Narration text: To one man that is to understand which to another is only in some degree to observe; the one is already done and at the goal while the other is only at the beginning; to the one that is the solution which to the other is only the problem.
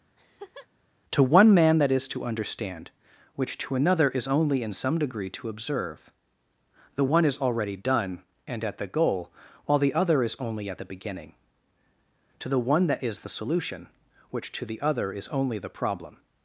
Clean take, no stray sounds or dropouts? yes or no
no